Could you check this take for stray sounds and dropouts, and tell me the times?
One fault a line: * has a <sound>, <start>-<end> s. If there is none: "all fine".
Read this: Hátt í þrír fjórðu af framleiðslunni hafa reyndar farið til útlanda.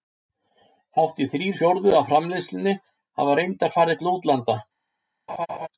* has a laugh, 5.3-5.7 s